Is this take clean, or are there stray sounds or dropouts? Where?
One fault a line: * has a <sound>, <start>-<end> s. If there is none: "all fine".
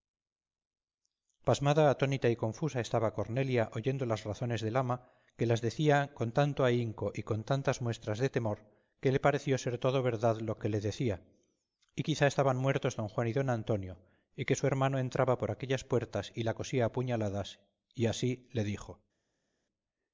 all fine